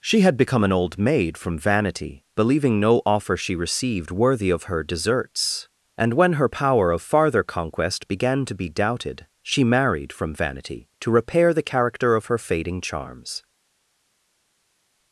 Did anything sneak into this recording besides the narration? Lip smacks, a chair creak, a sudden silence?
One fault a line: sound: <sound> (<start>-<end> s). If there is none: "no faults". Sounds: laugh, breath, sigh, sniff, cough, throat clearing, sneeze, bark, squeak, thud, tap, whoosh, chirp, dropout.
no faults